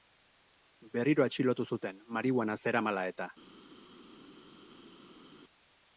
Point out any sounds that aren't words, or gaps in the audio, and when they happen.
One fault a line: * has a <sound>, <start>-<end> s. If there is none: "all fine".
all fine